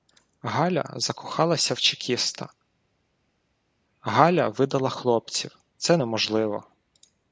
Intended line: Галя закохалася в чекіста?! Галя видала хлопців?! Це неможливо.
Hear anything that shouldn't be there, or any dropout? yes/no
no